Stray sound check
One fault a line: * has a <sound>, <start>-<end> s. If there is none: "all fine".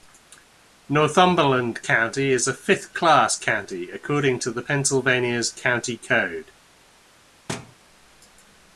* has a thud, 7.5-7.8 s